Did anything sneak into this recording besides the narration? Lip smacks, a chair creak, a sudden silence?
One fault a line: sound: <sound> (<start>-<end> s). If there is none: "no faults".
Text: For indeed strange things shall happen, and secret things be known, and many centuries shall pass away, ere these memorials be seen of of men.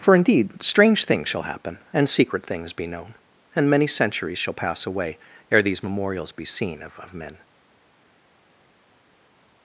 no faults